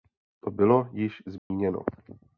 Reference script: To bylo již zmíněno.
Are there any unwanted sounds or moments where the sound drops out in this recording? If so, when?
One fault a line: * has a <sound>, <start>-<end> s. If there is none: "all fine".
* has a dropout, 1.4-1.5 s